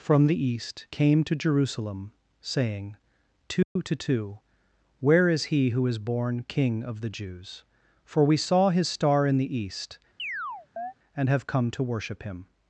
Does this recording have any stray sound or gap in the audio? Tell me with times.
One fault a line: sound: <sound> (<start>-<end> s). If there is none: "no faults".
sound: dropout (3.6-3.8 s)
sound: chirp (10.2-10.9 s)